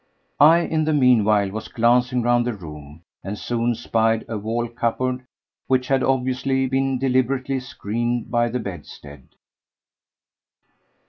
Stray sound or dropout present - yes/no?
no